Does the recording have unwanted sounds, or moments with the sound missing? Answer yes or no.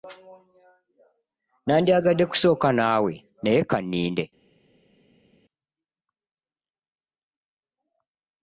no